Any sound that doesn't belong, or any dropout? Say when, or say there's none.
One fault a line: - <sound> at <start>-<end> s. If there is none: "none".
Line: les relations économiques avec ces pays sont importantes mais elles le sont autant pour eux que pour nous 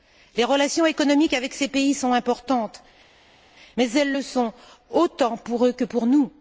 none